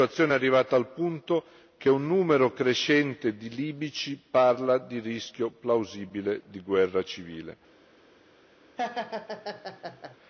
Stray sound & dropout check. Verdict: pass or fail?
fail